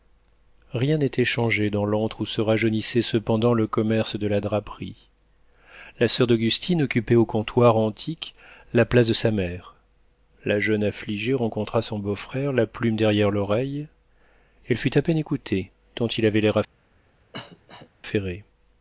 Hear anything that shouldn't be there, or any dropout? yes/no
yes